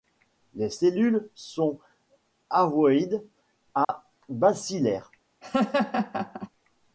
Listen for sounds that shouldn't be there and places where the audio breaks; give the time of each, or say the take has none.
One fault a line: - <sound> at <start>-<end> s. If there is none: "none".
- dropout at 3.8-3.9 s
- laugh at 5.4-6.5 s